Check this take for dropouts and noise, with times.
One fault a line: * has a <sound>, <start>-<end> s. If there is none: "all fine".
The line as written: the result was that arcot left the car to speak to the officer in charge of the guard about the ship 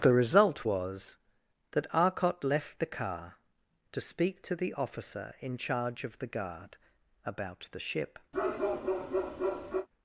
* has a bark, 8.3-9.9 s